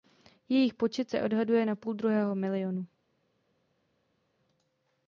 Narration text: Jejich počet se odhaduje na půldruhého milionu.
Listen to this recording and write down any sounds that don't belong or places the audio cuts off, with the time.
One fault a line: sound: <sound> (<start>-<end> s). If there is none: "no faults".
no faults